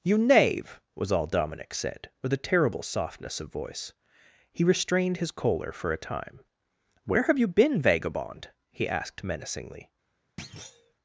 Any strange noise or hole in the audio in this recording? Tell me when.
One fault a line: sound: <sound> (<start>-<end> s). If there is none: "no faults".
sound: thud (10.4-10.9 s)